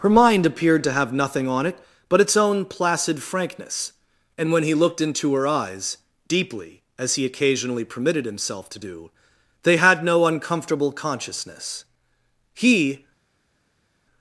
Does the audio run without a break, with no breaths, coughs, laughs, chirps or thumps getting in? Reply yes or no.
yes